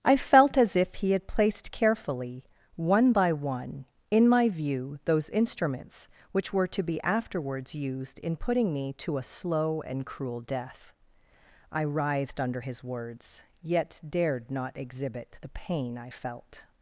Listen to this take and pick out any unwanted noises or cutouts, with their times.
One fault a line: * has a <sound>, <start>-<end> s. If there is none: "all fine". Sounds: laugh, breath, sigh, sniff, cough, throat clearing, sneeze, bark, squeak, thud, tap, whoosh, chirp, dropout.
all fine